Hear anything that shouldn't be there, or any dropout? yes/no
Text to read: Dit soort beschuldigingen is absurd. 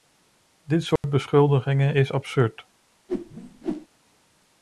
yes